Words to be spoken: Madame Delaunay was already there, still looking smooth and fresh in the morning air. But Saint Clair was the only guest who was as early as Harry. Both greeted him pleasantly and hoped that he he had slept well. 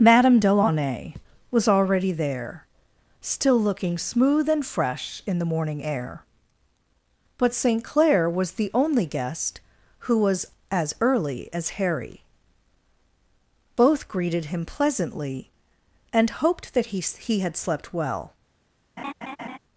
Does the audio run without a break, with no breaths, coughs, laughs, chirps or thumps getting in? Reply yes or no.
no